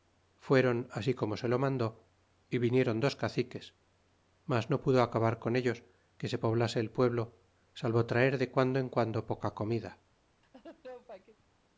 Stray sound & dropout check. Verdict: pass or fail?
fail